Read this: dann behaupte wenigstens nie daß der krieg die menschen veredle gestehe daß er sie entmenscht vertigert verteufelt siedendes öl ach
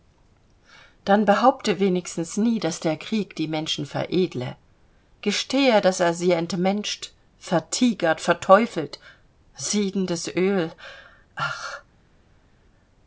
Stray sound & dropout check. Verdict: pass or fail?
pass